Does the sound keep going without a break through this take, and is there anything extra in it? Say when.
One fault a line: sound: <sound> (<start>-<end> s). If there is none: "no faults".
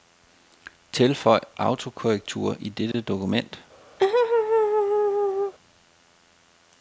sound: dropout (2.9-2.9 s)
sound: laugh (4.0-5.5 s)